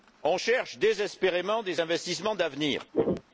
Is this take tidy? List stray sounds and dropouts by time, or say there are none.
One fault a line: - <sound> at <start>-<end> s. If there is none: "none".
- throat clearing at 2.9-3.2 s